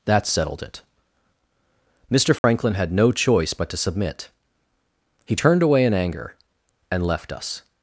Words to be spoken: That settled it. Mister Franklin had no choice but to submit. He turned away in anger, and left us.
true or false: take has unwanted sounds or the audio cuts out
true